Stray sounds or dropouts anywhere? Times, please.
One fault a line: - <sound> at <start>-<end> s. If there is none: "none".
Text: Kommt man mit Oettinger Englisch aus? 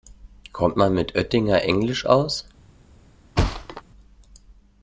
- thud at 3.4-3.8 s